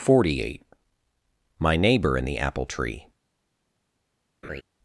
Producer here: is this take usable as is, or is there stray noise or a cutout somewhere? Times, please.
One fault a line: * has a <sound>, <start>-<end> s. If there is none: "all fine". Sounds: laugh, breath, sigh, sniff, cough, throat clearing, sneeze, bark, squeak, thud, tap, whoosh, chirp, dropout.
* has a laugh, 4.4-4.6 s